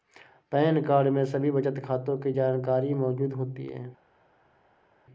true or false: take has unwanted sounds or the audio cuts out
false